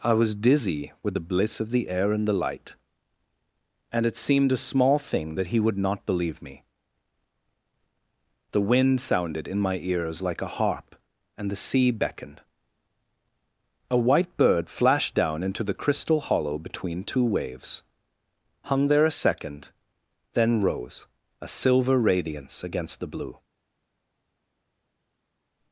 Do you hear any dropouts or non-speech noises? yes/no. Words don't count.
no